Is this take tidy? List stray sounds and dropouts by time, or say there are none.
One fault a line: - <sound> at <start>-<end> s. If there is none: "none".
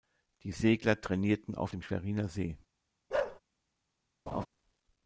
- bark at 3.1-3.4 s
- laugh at 4.3-4.5 s